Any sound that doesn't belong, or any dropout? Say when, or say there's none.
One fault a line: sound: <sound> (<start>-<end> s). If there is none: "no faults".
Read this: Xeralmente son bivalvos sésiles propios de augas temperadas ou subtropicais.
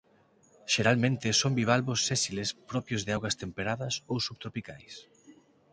no faults